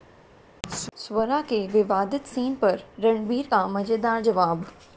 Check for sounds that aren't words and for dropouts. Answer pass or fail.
pass